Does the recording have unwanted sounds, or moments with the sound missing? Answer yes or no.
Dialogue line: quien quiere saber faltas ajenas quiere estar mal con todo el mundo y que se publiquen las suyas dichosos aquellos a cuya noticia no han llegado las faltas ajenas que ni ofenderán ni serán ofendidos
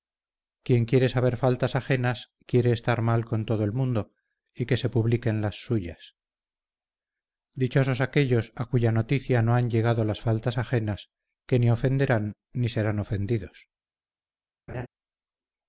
yes